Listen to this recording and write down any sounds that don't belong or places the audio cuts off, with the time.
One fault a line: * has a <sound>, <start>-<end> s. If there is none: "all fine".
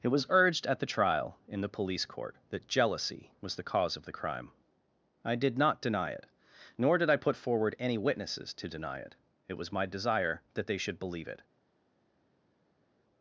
all fine